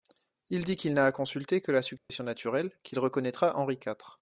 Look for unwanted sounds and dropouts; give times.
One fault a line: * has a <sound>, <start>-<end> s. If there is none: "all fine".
* has a dropout, 2.0-2.1 s